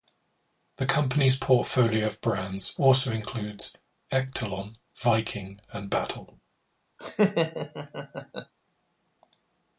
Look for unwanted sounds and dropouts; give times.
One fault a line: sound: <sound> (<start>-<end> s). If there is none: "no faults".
sound: laugh (7.0-8.5 s)